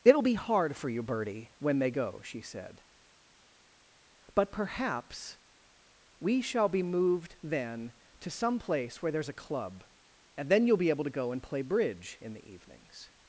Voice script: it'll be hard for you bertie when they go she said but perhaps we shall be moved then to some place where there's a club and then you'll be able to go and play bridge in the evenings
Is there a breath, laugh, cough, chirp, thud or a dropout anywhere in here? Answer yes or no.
no